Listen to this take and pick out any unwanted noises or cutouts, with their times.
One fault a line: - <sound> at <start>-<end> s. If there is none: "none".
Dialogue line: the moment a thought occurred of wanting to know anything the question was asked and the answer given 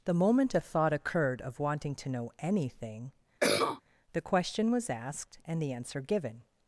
- cough at 3.4-3.8 s